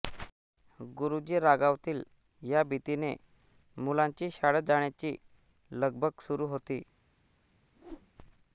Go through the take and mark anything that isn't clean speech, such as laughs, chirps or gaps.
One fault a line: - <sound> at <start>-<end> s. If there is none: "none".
- whoosh at 7.7-8.1 s